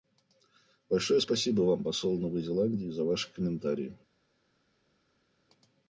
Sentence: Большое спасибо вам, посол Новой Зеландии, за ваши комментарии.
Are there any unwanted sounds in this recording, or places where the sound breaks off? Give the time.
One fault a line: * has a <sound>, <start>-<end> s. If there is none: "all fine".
all fine